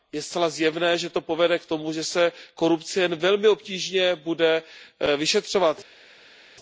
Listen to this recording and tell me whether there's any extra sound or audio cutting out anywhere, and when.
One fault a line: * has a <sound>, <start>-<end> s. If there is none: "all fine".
all fine